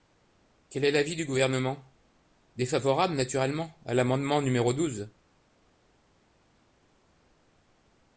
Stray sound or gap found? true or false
false